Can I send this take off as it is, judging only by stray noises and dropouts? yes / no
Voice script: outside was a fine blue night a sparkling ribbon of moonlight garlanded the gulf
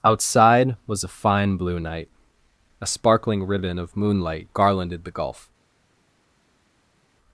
yes